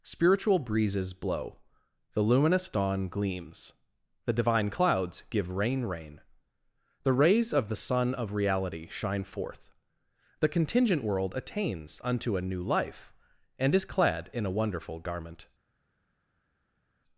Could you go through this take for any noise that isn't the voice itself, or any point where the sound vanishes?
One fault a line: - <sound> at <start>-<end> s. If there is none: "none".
none